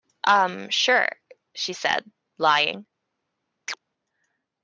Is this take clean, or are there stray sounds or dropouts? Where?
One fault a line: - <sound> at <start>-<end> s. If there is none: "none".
- chirp at 3.7-3.8 s